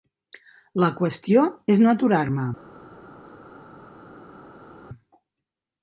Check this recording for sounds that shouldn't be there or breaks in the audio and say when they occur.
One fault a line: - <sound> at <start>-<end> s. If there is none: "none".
none